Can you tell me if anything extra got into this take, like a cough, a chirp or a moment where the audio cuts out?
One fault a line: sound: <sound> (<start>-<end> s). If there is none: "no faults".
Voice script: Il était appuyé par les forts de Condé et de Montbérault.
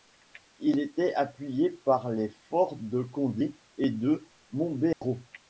sound: dropout (4.9-5.0 s)